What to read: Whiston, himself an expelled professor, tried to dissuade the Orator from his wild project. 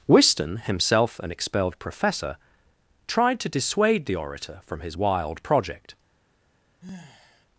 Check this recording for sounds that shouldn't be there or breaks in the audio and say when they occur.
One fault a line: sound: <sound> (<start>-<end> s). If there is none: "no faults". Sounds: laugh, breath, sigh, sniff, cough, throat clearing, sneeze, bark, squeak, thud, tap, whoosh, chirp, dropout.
sound: sigh (6.8-7.5 s)